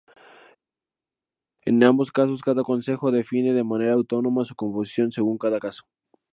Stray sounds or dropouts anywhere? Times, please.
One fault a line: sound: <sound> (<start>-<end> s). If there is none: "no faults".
no faults